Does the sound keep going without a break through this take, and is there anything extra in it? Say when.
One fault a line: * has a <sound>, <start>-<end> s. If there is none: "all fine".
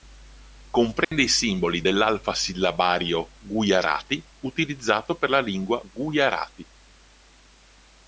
* has a dropout, 1.0-1.1 s